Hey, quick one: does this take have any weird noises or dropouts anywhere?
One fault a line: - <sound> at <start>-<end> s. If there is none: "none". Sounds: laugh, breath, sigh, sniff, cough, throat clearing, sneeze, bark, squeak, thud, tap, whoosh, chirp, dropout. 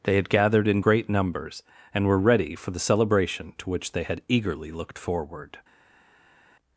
none